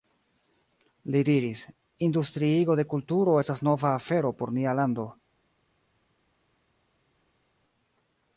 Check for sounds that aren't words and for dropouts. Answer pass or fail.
pass